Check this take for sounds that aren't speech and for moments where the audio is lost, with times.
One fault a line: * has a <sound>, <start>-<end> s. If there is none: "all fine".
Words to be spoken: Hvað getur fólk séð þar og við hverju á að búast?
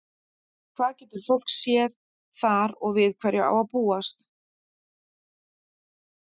all fine